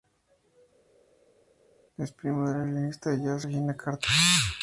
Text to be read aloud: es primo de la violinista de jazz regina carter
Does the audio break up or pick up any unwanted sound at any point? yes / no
no